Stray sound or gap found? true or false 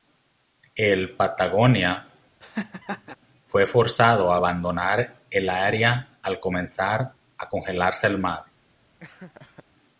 true